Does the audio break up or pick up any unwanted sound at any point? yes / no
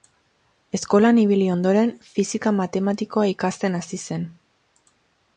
no